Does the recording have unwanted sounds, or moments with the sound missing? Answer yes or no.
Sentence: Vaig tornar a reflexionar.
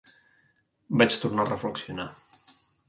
no